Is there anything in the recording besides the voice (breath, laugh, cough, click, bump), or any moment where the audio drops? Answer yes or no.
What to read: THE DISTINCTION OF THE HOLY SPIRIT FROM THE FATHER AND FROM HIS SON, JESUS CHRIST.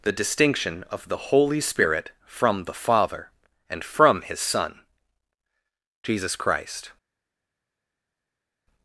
no